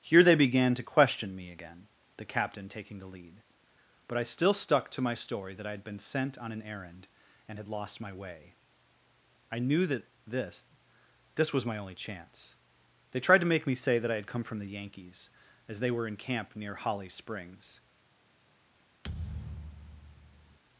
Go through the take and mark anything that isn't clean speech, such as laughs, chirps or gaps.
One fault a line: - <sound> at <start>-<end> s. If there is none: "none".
- thud at 19.0-20.6 s